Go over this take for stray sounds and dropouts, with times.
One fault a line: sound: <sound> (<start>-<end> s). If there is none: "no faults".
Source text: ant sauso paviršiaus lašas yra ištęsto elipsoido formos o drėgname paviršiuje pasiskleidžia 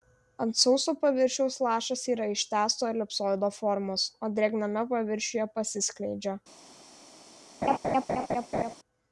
sound: laugh (7.6-8.8 s)